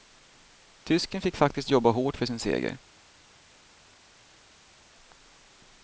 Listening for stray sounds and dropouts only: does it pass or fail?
pass